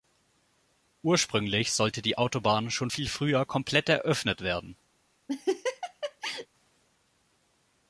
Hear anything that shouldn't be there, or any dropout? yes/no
yes